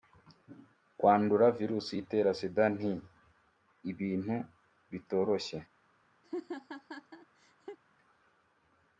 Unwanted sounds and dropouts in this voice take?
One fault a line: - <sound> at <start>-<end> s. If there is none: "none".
- laugh at 6.2-7.8 s